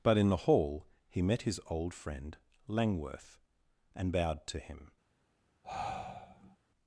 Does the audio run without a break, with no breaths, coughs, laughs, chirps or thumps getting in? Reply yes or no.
no